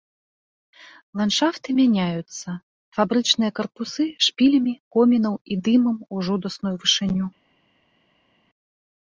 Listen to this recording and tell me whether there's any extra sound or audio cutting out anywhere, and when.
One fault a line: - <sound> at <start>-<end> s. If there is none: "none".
none